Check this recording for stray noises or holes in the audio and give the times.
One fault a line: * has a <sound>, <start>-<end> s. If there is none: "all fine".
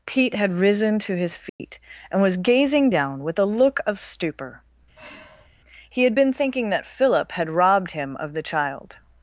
* has a dropout, 1.5-1.6 s
* has a sigh, 5.0-5.5 s